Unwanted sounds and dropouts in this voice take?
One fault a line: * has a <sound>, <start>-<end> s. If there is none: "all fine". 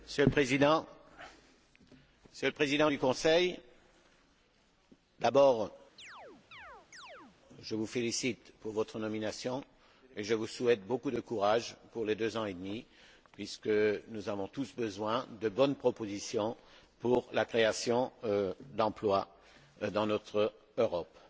* has a chirp, 6.0-7.4 s